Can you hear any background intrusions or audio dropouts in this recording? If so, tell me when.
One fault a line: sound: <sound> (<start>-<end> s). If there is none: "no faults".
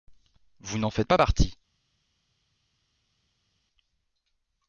no faults